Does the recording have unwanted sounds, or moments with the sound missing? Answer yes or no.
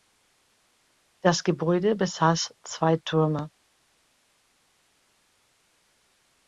no